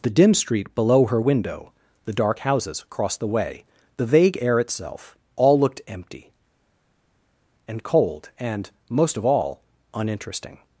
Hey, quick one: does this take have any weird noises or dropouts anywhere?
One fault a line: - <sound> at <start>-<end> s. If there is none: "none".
none